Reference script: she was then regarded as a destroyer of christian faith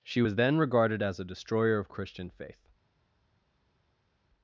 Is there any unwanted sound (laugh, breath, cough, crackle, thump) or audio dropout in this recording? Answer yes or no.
no